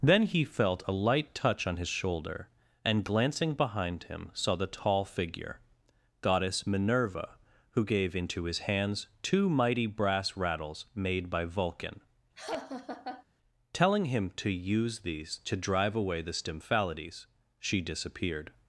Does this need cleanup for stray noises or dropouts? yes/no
yes